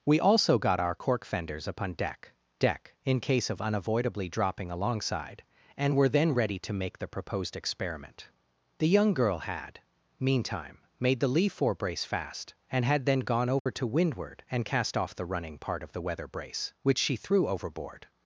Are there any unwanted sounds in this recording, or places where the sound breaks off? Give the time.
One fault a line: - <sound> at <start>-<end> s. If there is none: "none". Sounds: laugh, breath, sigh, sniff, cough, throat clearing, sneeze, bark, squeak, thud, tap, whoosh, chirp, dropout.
- dropout at 13.6-13.7 s